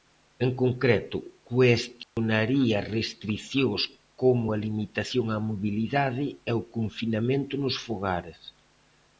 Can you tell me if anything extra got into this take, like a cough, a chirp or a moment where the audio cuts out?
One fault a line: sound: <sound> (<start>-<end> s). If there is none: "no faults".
sound: dropout (2.0-2.2 s)